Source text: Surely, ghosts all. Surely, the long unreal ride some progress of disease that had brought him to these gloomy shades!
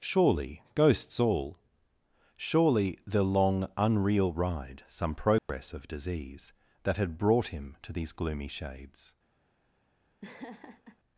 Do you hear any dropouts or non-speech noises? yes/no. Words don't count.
yes